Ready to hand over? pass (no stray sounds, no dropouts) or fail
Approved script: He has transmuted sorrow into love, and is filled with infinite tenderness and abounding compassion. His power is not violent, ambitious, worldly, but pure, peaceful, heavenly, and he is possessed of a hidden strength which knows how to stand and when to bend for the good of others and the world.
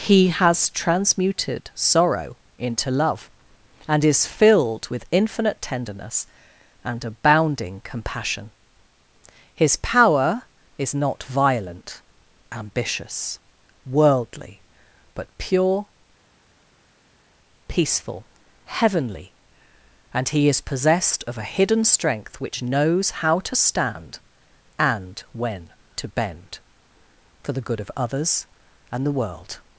pass